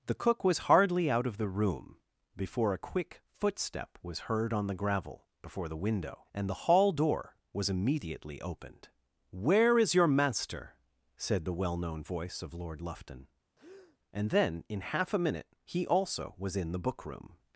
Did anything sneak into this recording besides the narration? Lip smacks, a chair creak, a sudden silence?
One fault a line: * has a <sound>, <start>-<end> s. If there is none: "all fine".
* has a breath, 13.6-14.0 s